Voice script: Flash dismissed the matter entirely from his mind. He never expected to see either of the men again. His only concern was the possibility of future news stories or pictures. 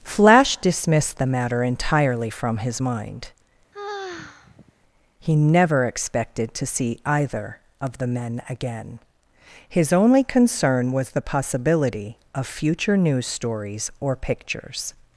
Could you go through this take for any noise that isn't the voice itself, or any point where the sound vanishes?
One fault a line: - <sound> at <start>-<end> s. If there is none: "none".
- sigh at 3.7-4.7 s